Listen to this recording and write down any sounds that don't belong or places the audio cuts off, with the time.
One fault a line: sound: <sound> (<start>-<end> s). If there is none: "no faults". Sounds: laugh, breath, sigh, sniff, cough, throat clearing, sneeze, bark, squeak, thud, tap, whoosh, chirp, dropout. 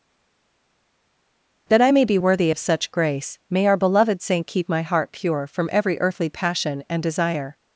no faults